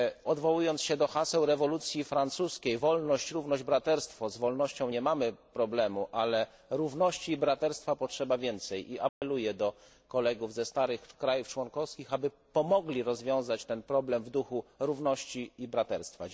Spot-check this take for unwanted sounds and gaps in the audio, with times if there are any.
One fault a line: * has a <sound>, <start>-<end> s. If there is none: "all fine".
* has a dropout, 9.1-9.2 s